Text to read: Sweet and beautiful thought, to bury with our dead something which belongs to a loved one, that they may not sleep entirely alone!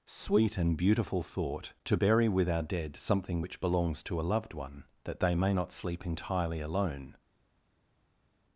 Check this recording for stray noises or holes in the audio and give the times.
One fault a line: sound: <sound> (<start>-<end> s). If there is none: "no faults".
no faults